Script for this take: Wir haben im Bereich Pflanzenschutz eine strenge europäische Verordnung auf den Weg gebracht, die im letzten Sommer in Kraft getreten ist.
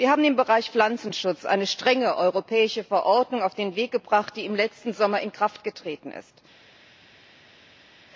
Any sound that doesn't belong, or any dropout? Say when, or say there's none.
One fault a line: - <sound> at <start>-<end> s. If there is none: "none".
none